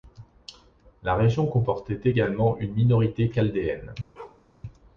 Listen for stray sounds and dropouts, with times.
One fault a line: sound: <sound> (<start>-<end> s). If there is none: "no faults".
sound: bark (4.2-4.5 s)